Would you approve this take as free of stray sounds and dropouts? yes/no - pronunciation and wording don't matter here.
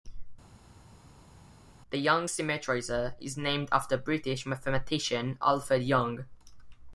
yes